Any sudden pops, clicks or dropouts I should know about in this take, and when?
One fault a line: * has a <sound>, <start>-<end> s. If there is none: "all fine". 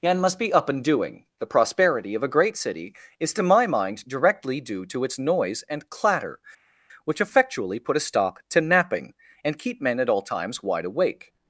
all fine